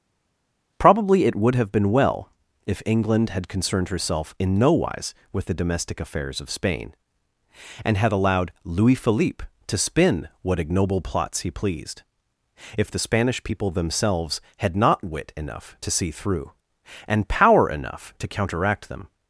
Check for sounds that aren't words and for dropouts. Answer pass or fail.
pass